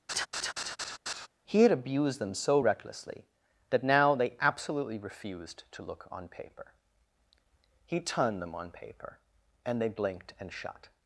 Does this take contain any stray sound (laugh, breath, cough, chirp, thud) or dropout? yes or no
yes